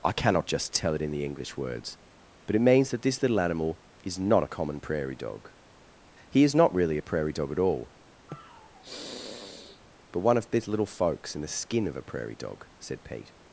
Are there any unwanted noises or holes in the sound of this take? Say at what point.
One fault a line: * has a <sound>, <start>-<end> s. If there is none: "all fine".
* has a sniff, 8.3-9.8 s